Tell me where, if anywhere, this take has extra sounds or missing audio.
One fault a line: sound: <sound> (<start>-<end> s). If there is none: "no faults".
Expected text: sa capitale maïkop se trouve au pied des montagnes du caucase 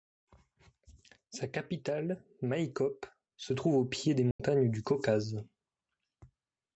sound: dropout (4.3-4.4 s)